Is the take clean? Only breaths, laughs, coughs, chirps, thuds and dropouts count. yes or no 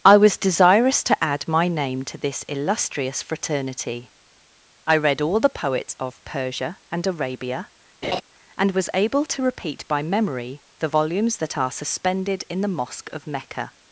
no